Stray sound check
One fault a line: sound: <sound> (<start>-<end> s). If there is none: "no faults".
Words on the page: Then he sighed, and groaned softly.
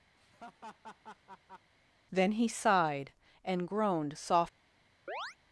sound: laugh (0.2-1.7 s)
sound: chirp (5.1-5.4 s)